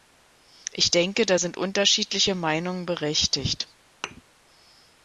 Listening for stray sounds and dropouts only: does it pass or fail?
fail